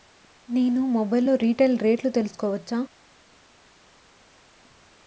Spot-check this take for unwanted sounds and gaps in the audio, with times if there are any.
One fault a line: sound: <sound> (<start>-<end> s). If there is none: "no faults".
no faults